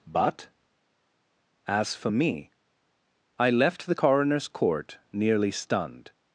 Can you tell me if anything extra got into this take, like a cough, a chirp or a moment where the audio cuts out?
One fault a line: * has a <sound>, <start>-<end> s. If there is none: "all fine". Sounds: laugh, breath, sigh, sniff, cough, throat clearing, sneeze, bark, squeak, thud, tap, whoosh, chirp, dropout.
all fine